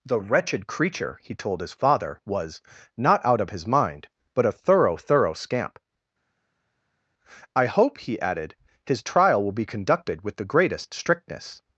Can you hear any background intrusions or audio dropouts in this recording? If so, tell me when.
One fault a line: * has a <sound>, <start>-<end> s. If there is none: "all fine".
all fine